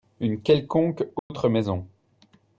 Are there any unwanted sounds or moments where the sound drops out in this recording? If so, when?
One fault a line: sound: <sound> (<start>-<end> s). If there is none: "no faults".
sound: dropout (1.2-1.3 s)